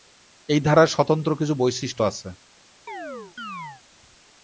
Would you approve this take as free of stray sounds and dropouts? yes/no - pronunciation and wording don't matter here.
no